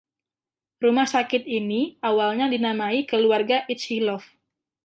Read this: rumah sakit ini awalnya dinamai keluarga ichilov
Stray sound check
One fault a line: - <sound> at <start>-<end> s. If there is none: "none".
none